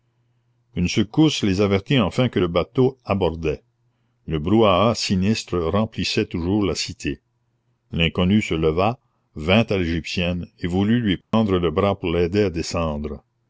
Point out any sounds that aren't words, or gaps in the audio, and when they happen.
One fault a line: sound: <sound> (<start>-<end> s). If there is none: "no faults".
sound: dropout (11.2-11.3 s)